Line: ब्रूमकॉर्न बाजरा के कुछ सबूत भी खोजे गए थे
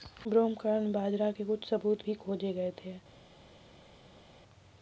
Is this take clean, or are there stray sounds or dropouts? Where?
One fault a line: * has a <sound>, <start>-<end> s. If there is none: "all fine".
all fine